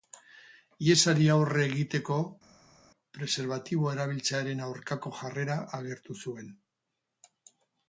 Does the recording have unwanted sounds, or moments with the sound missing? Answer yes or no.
no